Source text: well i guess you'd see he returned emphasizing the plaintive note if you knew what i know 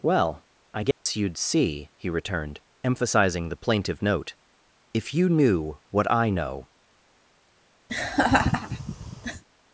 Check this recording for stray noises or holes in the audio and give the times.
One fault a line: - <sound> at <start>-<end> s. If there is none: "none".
- dropout at 0.9-1.1 s
- laugh at 7.9-9.4 s